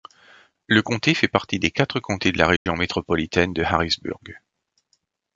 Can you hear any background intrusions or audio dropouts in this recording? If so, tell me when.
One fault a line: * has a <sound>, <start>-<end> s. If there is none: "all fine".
* has a dropout, 2.6-2.7 s